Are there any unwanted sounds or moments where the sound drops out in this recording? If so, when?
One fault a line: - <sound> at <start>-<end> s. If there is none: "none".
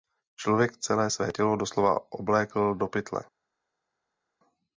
none